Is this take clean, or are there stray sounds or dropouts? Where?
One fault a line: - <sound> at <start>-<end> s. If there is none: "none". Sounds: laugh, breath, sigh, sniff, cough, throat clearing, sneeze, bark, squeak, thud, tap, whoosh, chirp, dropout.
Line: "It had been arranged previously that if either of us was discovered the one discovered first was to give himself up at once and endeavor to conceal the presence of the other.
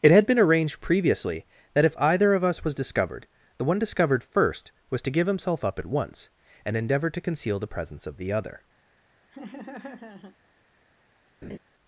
- laugh at 9.3-10.4 s
- laugh at 11.4-11.6 s